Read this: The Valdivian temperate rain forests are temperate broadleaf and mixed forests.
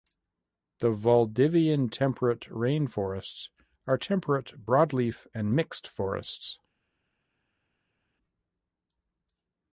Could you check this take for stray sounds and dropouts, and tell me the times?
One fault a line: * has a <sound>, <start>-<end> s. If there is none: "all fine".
all fine